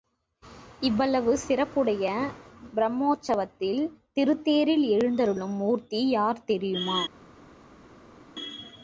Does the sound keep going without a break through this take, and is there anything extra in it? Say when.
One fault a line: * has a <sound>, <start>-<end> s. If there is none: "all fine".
all fine